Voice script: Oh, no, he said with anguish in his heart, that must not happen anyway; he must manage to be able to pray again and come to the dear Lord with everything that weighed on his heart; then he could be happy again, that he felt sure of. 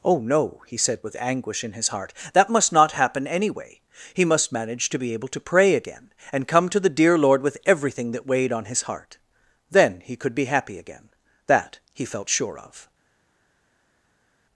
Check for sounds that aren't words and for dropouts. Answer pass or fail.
pass